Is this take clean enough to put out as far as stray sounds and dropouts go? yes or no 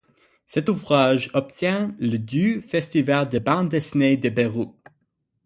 yes